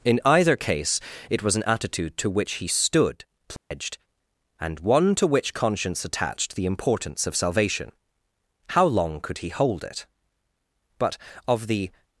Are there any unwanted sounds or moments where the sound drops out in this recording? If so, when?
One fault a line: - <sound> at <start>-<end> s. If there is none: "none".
- dropout at 3.6-3.7 s